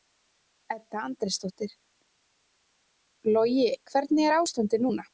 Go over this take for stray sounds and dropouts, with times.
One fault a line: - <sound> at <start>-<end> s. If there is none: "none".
none